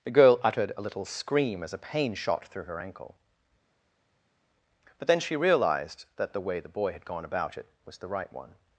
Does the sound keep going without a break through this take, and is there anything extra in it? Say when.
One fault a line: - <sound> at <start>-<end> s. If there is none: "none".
none